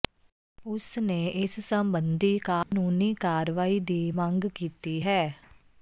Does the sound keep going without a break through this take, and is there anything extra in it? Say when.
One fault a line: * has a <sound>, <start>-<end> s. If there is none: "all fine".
* has a dropout, 2.6-2.7 s